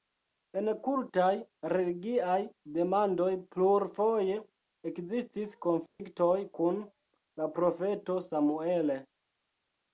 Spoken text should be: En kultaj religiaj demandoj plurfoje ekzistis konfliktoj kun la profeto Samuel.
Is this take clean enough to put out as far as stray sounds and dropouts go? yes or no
no